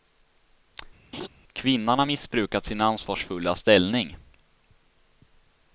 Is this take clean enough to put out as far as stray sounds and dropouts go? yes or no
no